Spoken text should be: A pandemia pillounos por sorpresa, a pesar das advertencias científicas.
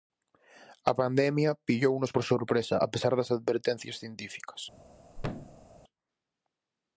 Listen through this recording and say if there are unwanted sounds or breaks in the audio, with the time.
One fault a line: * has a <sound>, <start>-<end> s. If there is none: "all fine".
* has a thud, 5.2-5.7 s